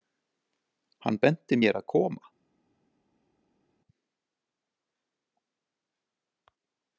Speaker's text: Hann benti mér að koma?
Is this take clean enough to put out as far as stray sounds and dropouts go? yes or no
yes